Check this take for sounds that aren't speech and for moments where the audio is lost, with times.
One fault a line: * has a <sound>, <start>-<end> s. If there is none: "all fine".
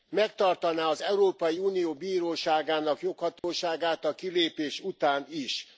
* has a dropout, 3.4-3.4 s